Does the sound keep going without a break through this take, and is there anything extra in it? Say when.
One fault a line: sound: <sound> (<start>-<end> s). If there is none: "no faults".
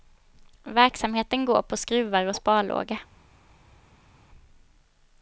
no faults